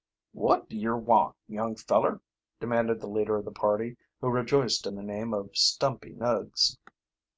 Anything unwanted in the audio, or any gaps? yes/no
no